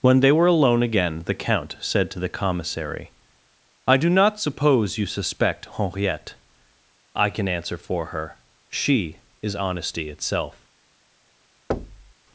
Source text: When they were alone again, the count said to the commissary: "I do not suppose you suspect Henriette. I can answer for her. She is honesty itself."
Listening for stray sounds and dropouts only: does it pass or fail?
fail